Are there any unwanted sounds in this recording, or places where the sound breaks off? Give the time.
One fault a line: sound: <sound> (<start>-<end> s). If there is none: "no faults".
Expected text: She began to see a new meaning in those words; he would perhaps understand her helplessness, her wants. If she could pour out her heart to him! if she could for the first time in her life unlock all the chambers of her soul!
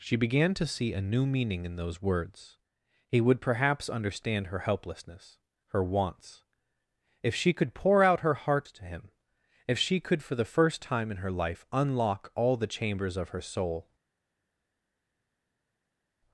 no faults